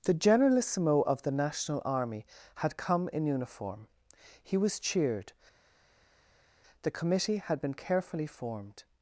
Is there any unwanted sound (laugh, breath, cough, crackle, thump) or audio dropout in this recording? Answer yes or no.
no